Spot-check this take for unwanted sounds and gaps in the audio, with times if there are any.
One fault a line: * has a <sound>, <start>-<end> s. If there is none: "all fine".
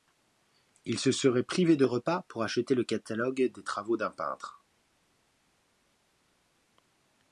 all fine